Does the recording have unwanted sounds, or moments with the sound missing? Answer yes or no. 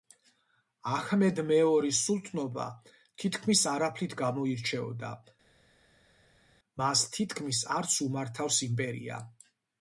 no